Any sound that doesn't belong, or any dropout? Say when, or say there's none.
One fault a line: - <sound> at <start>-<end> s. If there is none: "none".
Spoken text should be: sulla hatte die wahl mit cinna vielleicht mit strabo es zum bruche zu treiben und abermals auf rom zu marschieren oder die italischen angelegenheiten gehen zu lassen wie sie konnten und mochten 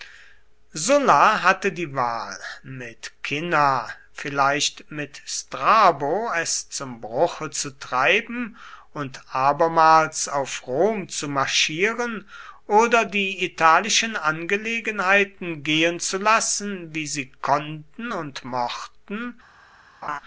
- laugh at 20.0-20.2 s